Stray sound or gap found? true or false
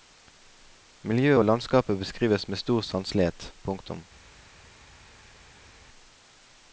false